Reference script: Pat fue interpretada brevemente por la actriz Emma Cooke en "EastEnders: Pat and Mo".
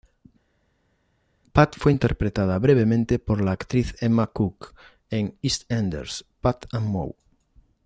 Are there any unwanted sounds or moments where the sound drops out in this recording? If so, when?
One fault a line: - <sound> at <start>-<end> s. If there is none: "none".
none